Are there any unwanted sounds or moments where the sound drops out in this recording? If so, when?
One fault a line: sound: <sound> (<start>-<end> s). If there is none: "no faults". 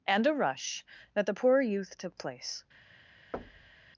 sound: thud (3.3-3.9 s)